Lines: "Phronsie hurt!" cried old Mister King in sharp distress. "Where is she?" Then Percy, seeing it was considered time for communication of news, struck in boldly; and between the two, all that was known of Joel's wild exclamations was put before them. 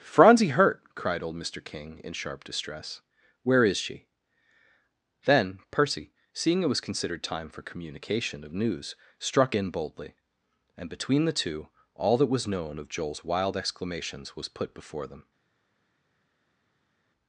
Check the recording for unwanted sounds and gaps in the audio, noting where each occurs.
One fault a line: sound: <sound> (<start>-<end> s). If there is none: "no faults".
no faults